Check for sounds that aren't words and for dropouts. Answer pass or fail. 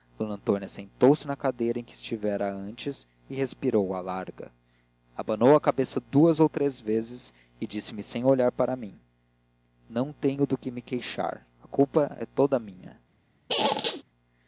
fail